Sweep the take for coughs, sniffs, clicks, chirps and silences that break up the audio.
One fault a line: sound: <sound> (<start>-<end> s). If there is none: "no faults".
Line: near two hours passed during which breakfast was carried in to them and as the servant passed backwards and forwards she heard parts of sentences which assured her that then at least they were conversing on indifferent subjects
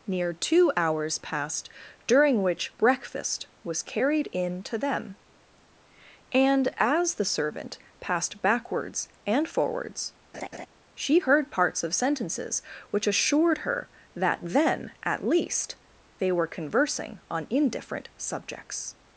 sound: laugh (10.3-10.7 s)